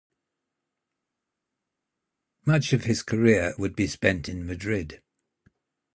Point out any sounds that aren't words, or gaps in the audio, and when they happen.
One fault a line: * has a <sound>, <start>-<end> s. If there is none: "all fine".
all fine